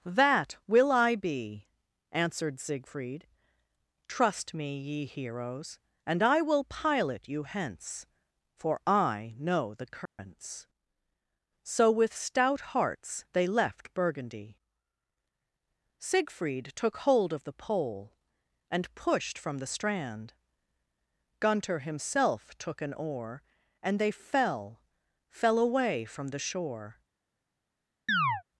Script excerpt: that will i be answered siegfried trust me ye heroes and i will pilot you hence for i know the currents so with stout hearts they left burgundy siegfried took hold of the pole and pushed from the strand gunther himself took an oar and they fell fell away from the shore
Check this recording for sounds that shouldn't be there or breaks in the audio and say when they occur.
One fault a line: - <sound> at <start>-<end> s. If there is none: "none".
- dropout at 10.1-10.2 s
- chirp at 28.1-28.4 s